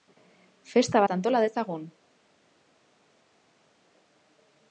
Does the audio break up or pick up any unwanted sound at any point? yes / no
no